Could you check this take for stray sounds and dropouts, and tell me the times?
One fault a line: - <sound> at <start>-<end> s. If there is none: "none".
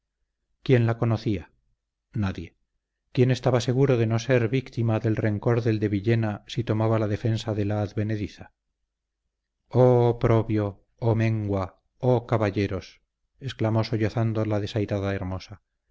none